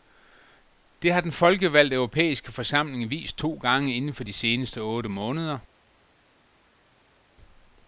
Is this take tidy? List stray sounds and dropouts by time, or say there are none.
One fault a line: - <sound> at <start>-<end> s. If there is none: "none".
none